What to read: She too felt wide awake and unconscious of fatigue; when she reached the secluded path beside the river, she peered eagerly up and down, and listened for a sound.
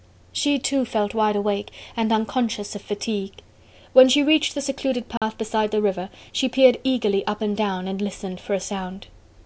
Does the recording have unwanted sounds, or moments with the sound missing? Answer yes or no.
yes